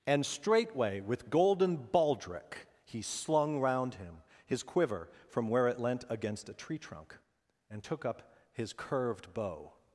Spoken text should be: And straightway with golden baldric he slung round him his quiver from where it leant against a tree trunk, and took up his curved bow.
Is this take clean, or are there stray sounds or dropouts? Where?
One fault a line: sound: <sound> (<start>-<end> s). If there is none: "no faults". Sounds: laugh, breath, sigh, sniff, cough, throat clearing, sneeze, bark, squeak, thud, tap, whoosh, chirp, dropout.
no faults